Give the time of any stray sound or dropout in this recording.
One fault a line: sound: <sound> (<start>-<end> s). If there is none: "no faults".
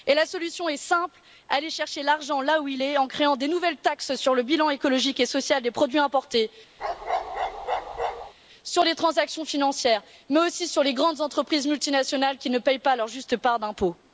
sound: bark (6.8-8.3 s)